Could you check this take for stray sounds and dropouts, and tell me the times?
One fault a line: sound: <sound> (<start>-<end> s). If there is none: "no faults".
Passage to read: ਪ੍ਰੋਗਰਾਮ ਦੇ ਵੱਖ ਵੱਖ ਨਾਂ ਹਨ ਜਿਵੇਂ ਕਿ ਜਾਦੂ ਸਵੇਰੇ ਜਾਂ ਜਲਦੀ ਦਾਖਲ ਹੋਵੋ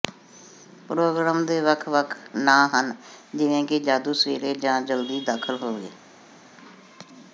no faults